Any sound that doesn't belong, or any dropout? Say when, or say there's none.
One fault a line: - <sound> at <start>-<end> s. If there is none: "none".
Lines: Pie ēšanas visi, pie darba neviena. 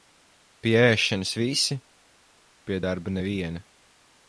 none